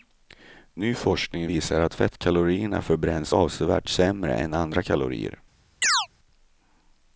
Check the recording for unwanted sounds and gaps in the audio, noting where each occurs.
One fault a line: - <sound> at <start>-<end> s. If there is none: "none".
- chirp at 5.8-6.1 s